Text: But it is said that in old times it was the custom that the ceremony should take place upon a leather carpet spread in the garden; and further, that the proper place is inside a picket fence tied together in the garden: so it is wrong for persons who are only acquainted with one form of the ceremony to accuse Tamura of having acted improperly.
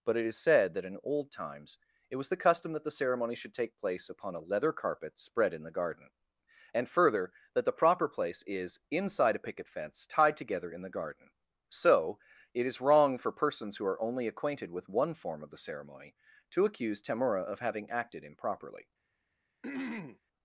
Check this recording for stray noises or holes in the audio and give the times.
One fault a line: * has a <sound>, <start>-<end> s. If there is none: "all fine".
* has a throat clearing, 19.6-20.2 s